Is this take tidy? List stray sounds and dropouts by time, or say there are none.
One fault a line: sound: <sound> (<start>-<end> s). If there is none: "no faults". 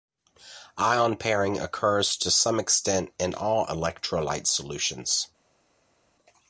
no faults